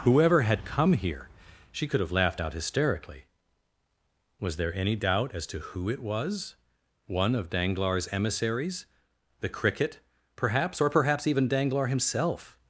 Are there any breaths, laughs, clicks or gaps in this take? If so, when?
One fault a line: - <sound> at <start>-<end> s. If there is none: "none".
none